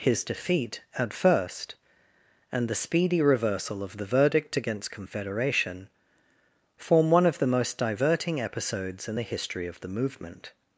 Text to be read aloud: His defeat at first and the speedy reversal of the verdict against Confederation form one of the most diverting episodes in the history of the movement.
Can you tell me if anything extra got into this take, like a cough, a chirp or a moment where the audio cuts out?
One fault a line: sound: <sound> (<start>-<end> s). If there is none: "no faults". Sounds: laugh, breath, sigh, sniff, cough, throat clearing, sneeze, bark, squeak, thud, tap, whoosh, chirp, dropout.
no faults